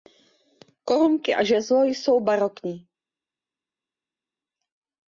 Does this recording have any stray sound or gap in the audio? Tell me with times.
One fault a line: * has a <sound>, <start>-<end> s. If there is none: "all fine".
all fine